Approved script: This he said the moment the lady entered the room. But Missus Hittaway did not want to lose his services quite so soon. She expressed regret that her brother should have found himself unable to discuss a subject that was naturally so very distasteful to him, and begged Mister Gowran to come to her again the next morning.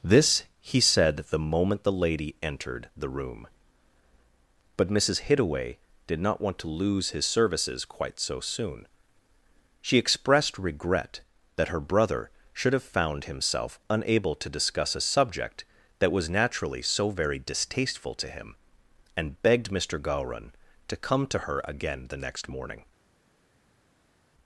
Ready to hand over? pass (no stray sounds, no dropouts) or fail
pass